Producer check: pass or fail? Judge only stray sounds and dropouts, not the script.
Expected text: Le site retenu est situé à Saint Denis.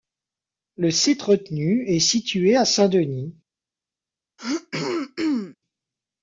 fail